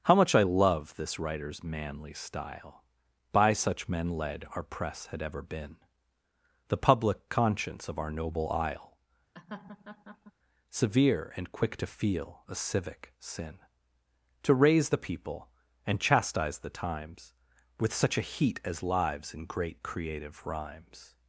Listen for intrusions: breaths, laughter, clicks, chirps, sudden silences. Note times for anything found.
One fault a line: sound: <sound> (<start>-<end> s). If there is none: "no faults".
sound: laugh (9.3-10.3 s)